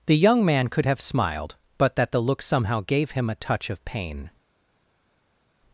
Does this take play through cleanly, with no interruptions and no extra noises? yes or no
yes